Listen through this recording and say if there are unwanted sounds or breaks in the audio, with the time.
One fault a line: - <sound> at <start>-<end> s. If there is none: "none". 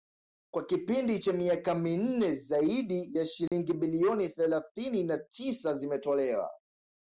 - dropout at 3.5-3.5 s